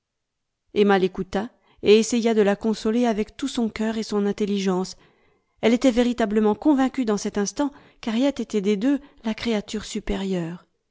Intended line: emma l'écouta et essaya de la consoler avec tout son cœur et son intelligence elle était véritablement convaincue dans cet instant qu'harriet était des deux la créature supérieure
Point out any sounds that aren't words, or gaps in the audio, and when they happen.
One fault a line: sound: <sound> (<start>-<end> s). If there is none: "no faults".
no faults